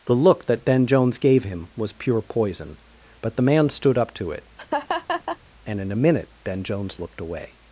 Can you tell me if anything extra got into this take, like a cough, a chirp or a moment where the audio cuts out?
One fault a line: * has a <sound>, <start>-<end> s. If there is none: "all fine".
* has a laugh, 4.6-5.4 s